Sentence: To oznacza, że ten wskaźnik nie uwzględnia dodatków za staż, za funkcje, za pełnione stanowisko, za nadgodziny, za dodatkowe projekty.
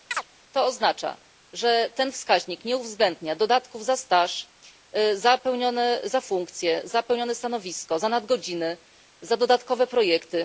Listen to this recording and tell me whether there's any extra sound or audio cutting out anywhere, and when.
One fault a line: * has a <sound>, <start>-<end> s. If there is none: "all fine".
* has a chirp, 0.1-0.3 s